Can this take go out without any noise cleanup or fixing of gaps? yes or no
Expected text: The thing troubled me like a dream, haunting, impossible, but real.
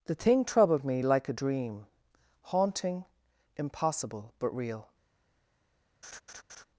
no